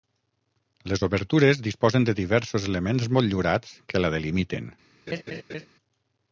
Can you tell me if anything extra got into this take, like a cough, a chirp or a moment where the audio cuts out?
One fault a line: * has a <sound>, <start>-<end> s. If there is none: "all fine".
* has a laugh, 5.1-5.7 s